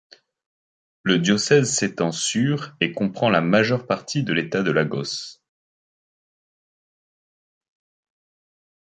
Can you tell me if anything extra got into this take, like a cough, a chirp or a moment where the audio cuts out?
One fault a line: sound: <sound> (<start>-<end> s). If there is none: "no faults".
no faults